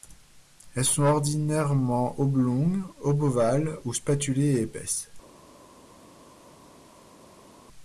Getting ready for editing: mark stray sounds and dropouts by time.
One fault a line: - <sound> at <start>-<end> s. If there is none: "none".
none